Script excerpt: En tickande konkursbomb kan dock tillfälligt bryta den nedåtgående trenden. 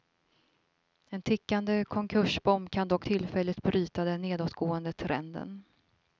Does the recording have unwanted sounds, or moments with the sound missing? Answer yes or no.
no